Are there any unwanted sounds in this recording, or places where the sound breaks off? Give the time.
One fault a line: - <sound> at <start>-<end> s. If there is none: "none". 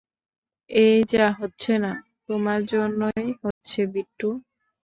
- dropout at 3.5-3.6 s